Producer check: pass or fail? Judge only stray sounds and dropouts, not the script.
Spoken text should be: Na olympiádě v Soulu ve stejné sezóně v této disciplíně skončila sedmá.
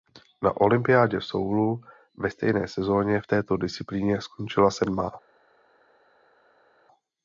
pass